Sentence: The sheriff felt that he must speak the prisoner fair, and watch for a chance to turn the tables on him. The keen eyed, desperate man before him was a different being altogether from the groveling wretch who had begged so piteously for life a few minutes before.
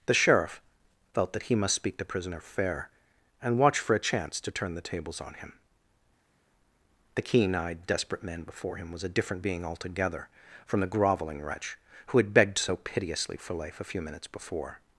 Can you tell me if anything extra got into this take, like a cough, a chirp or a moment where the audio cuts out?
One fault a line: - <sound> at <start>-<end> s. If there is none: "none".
none